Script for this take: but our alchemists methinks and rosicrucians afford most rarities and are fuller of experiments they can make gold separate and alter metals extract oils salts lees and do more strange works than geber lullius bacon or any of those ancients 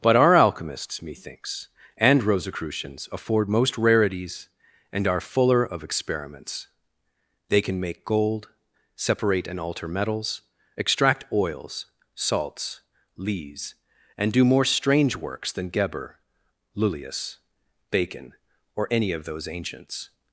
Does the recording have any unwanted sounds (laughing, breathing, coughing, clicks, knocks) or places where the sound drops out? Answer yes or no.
no